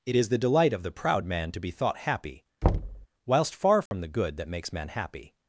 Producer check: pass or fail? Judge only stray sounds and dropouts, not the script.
fail